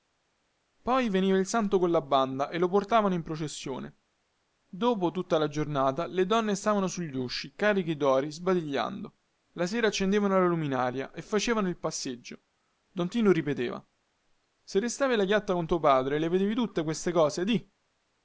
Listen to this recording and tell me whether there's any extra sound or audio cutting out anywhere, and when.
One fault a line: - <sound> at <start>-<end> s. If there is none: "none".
none